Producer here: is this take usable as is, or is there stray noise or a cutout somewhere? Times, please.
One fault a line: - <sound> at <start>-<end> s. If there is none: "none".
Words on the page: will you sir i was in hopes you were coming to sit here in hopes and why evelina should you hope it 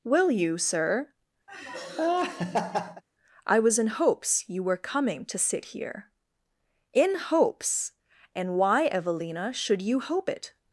- laugh at 1.5-3.0 s